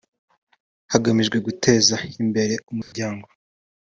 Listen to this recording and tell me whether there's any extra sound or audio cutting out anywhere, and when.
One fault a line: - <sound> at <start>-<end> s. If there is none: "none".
- dropout at 2.8-2.9 s